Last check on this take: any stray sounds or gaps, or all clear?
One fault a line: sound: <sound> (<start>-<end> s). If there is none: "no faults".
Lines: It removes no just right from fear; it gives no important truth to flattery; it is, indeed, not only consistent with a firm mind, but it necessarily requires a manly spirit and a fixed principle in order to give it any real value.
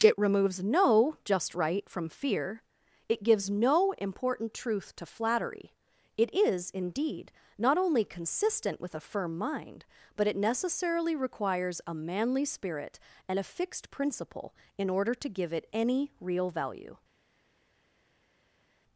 no faults